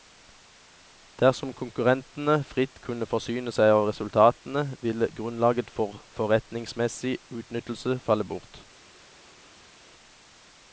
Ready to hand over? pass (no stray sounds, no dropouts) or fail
pass